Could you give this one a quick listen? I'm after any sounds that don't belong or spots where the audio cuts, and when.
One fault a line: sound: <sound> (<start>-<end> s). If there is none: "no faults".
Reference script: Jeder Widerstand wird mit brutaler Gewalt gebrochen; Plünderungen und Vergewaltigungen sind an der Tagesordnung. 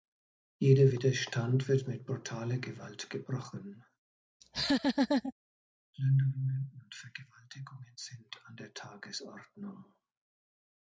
sound: laugh (4.4-5.3 s)